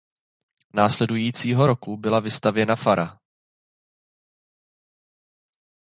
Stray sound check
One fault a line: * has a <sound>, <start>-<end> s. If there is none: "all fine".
all fine